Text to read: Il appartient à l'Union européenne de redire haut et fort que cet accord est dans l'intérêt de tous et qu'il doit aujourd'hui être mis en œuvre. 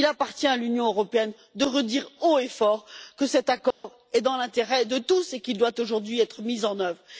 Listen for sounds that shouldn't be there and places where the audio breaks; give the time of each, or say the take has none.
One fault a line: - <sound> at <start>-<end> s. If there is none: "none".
- dropout at 3.7-3.8 s